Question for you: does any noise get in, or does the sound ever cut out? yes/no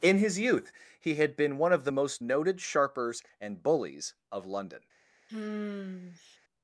yes